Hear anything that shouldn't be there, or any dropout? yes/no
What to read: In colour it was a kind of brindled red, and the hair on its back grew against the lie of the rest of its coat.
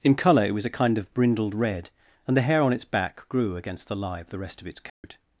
yes